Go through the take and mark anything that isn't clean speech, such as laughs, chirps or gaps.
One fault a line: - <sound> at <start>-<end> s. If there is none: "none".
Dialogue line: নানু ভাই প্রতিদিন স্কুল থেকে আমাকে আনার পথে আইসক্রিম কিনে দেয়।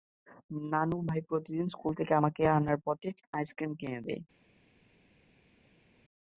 none